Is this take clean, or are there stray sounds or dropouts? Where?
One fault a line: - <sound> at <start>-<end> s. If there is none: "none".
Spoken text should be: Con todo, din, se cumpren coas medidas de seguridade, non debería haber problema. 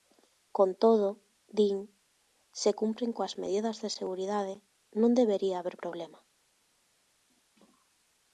none